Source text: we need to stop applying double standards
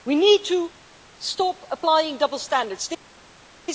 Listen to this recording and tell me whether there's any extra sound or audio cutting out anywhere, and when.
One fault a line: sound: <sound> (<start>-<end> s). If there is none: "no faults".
no faults